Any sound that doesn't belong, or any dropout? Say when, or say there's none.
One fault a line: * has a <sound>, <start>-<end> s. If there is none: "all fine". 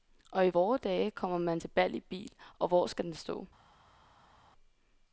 all fine